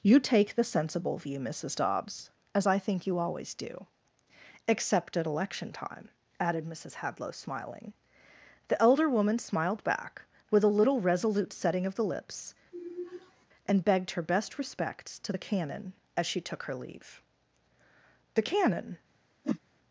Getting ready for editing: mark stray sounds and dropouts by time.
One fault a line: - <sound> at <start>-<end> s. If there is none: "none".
- sigh at 12.7-13.5 s
- whoosh at 19.4-19.6 s